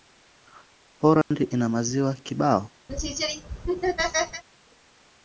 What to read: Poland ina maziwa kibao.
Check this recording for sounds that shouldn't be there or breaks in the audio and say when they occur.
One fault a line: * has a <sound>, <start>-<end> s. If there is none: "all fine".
* has a dropout, 1.2-1.3 s
* has a laugh, 2.9-4.4 s